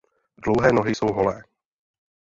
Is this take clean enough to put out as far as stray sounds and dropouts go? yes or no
yes